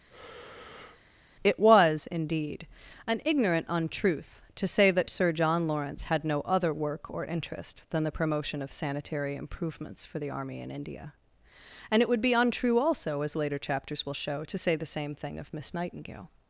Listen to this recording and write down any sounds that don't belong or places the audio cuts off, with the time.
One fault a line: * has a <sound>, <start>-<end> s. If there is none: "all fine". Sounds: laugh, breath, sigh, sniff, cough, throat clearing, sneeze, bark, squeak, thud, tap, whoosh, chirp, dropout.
* has a breath, 0.1-1.0 s